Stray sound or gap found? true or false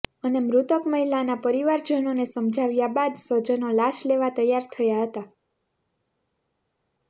false